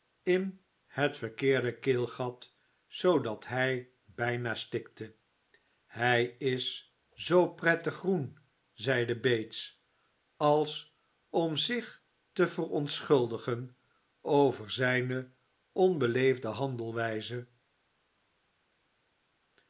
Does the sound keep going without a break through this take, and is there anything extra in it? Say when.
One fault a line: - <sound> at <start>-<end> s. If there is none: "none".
none